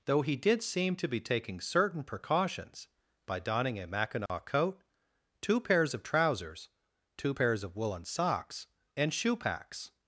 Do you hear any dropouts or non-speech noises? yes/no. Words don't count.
yes